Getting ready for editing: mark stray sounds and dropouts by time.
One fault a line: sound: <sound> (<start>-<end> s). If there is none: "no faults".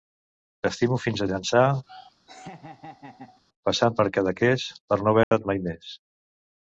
sound: laugh (1.9-3.4 s)
sound: dropout (5.2-5.3 s)